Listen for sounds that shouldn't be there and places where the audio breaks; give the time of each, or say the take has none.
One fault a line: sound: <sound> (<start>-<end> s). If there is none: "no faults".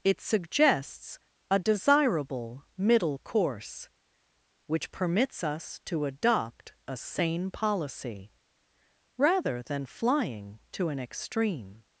no faults